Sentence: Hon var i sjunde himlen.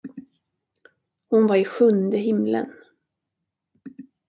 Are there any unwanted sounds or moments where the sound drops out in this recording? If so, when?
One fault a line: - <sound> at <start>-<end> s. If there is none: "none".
none